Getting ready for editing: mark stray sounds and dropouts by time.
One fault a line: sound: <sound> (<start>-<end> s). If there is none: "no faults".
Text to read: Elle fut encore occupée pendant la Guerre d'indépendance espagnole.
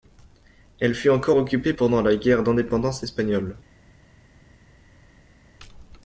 no faults